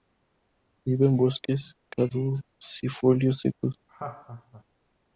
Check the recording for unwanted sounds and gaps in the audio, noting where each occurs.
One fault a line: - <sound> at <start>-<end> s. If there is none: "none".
- laugh at 3.9-4.6 s